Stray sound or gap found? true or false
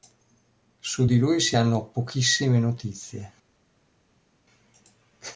false